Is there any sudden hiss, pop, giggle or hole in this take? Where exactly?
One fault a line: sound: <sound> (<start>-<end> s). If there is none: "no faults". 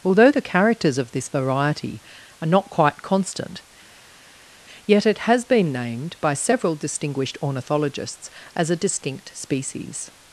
no faults